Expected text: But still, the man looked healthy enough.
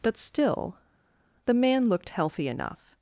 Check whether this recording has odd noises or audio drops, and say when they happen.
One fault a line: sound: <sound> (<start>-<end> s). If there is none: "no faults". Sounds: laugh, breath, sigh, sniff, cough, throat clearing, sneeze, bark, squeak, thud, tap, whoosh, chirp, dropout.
no faults